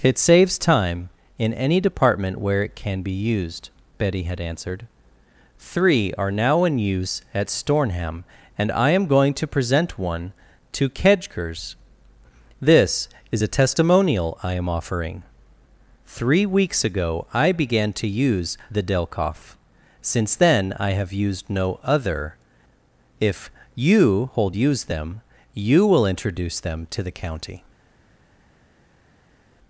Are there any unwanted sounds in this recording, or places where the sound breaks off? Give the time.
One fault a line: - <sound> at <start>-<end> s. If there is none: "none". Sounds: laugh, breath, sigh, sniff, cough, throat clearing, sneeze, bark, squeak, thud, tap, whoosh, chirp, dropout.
none